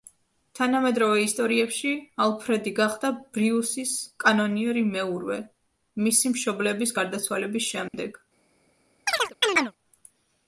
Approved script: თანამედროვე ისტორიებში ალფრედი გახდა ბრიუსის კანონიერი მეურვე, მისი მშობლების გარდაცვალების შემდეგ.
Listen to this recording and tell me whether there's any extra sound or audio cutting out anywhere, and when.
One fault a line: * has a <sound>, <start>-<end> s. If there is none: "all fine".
* has a dropout, 7.9-7.9 s
* has a chirp, 9.1-9.7 s